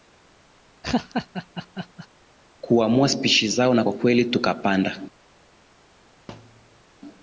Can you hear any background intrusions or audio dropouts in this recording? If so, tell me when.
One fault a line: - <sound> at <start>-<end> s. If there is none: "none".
- laugh at 0.8-2.1 s
- thud at 6.3-6.8 s